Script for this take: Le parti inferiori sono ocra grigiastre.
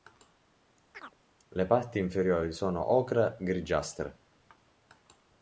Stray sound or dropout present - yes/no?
yes